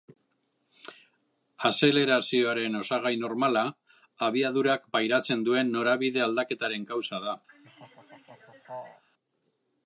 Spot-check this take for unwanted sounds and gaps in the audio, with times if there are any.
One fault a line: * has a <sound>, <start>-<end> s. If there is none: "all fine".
* has a laugh, 7.5-9.0 s